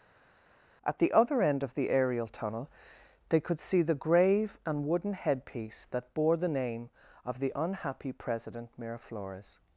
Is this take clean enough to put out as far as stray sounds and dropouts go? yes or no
yes